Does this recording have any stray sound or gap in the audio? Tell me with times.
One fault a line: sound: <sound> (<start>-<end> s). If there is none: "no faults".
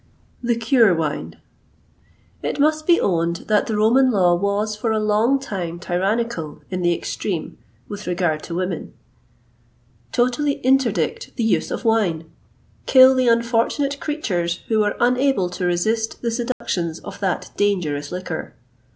sound: dropout (16.5-16.6 s)